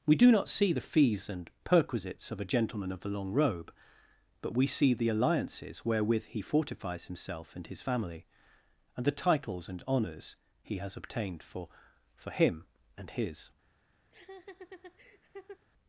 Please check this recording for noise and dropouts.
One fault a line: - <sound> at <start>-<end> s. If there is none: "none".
- laugh at 14.1-15.6 s